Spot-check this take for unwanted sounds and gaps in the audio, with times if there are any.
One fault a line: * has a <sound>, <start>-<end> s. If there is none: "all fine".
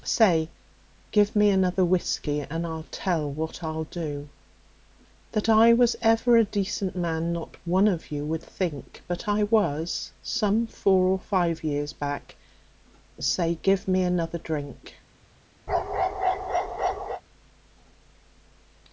* has a bark, 15.7-17.2 s